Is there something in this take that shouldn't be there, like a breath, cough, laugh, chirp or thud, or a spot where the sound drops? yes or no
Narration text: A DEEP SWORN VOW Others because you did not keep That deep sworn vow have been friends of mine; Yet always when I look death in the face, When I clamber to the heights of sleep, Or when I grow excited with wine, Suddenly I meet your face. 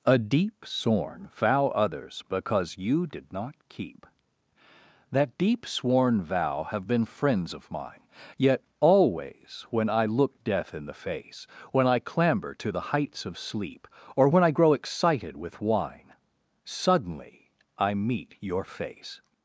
no